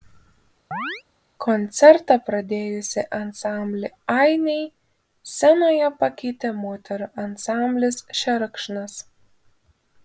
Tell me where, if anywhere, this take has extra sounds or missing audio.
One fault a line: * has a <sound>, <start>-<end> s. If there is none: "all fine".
* has a chirp, 0.7-1.0 s